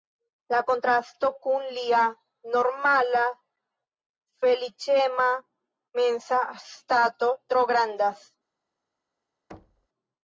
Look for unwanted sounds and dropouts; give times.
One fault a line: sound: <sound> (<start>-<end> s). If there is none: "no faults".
sound: thud (9.5-9.9 s)